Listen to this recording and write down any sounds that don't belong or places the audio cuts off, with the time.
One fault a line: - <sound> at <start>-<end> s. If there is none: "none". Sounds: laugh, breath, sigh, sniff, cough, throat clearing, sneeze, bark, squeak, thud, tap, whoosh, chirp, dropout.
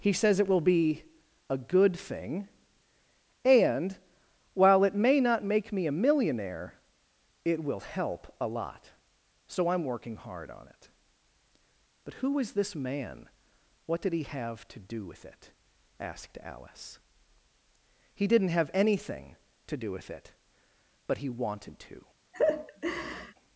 - laugh at 22.3-23.3 s